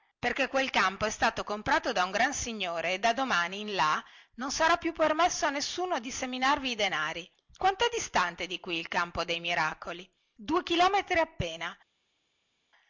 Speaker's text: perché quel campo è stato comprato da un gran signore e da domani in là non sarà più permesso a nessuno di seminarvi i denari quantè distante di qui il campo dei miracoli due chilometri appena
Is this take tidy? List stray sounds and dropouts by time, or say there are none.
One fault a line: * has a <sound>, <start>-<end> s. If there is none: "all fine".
all fine